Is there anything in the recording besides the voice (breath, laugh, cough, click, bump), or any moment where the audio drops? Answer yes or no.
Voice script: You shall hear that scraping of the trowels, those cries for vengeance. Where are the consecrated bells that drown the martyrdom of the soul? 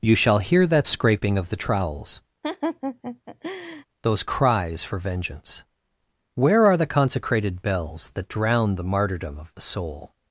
yes